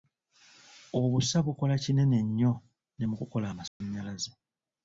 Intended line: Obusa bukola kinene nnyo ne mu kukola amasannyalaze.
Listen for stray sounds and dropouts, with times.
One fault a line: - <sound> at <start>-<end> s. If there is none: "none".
- dropout at 3.7-3.8 s